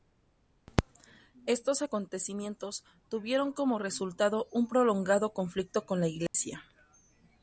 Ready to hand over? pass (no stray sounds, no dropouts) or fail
fail